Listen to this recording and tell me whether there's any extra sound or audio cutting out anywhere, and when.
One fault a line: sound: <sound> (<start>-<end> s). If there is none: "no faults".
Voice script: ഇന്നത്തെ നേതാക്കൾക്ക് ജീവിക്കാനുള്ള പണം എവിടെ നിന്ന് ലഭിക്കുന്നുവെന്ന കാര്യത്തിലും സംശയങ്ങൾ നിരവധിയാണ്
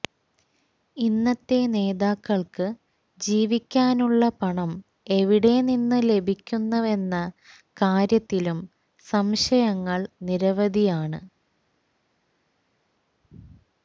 no faults